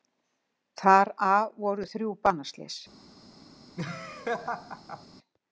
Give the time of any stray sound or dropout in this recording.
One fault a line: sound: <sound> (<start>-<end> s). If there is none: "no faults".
sound: laugh (3.8-5.1 s)